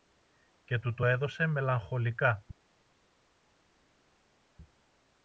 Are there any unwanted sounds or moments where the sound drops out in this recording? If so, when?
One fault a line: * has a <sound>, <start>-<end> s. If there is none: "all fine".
all fine